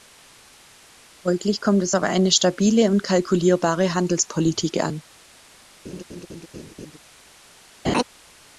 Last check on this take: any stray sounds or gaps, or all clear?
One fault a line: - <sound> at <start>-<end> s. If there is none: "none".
- laugh at 5.8-7.0 s
- laugh at 7.8-8.0 s